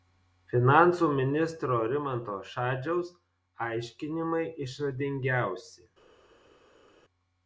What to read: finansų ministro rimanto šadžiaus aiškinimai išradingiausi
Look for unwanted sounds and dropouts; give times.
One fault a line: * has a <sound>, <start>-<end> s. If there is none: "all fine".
all fine